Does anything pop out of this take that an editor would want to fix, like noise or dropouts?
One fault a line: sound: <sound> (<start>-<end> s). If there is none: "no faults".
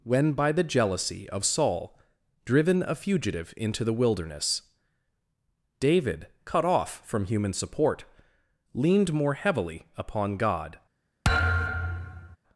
sound: thud (11.2-12.4 s)